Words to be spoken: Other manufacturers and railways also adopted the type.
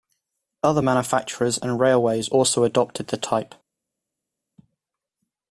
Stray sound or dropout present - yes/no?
no